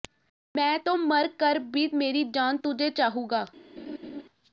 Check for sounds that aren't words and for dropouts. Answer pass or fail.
fail